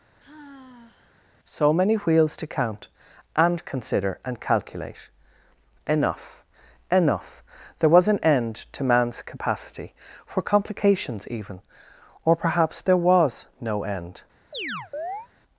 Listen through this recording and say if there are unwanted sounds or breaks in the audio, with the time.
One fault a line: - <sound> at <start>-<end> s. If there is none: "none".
- sigh at 0.2-1.2 s
- chirp at 14.5-15.3 s